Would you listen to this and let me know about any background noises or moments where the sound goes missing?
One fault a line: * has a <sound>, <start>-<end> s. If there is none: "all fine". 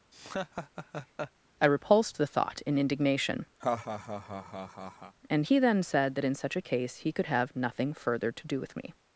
* has a laugh, 0.1-1.3 s
* has a laugh, 3.6-5.2 s